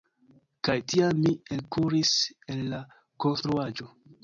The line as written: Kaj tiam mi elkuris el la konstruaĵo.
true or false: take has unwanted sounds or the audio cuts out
false